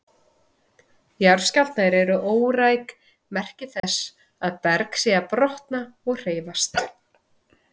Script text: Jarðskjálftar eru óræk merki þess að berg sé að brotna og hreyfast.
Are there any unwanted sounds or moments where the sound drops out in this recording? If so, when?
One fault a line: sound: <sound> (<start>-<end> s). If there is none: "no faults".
sound: dropout (3.8-3.8 s)